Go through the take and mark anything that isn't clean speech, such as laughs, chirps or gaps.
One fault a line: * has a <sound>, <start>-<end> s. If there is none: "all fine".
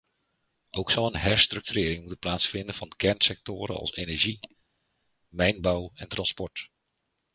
all fine